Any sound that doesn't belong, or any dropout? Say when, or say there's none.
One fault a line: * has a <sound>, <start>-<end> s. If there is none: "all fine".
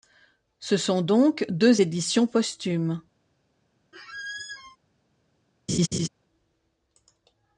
* has a squeak, 3.9-4.8 s
* has a laugh, 5.7-6.1 s